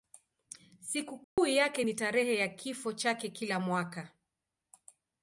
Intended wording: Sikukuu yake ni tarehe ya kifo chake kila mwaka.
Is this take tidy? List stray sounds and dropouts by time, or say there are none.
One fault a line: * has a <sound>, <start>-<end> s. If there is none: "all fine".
* has a dropout, 1.2-1.4 s